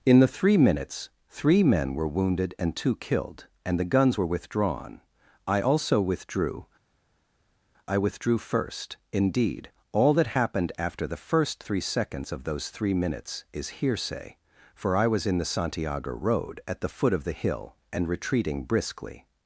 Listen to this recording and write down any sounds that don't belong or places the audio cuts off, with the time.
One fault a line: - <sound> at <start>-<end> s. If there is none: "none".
none